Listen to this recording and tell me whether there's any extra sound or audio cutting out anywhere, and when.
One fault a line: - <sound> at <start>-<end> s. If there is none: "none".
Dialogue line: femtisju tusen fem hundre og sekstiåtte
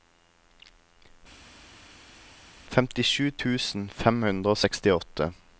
none